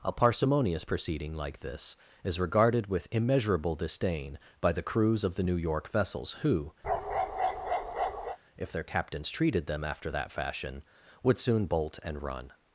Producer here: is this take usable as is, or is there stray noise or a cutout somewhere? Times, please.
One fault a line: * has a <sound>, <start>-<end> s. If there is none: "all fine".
* has a bark, 6.8-8.4 s